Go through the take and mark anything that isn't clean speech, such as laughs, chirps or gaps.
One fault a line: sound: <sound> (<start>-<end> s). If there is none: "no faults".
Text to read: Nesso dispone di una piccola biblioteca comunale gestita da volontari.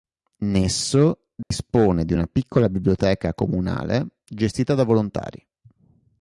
sound: dropout (1.4-1.5 s)